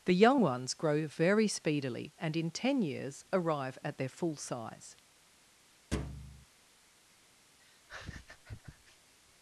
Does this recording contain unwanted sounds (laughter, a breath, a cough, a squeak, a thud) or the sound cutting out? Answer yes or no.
yes